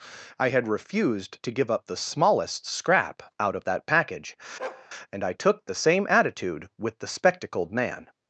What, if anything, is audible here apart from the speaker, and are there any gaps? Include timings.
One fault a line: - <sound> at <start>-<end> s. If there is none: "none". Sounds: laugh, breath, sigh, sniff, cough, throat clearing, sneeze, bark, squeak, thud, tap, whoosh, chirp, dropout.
- bark at 4.6-4.9 s